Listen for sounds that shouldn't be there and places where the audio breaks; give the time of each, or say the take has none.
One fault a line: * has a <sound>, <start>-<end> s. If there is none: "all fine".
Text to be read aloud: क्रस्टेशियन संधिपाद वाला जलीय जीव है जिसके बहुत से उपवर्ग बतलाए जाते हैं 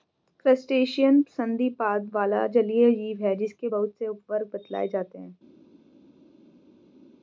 all fine